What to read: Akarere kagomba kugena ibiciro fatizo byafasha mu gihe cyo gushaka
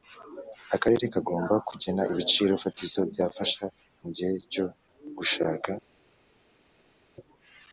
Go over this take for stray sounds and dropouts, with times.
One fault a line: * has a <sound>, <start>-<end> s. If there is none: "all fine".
all fine